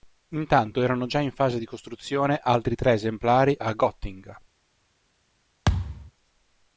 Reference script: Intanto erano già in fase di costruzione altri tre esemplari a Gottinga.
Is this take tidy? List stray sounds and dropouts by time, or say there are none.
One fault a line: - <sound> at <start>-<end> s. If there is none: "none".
- thud at 5.7-6.1 s